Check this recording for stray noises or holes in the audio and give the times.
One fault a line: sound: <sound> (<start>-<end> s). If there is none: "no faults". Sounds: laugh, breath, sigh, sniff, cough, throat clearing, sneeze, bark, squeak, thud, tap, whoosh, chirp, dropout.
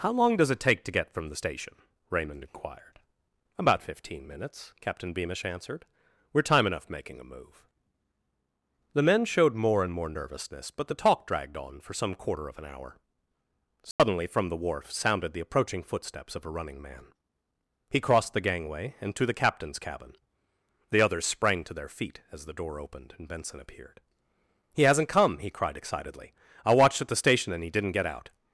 sound: dropout (13.9-14.0 s)